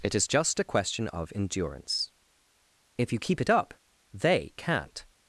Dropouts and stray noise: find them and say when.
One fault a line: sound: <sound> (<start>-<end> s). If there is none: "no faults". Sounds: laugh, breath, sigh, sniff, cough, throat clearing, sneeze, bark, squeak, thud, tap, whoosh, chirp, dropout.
no faults